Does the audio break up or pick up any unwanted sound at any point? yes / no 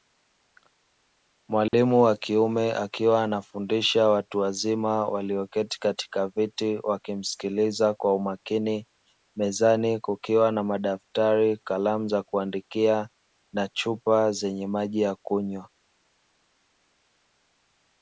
yes